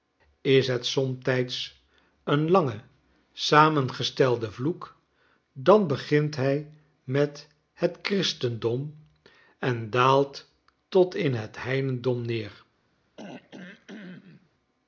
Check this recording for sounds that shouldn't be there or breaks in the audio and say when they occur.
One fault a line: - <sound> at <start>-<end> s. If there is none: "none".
- throat clearing at 13.2-14.5 s